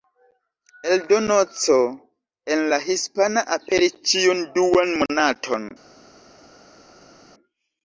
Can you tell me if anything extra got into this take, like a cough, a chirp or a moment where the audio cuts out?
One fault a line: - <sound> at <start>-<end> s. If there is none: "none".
none